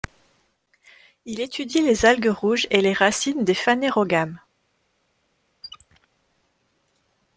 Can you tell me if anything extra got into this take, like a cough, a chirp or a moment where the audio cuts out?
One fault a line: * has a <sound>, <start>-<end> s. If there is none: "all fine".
* has a squeak, 5.6-6.1 s